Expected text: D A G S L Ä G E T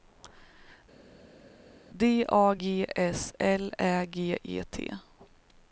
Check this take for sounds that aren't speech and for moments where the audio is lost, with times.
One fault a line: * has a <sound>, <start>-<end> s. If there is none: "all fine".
all fine